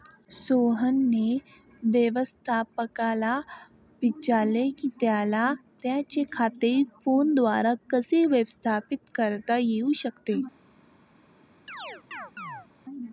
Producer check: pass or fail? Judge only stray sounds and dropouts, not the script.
fail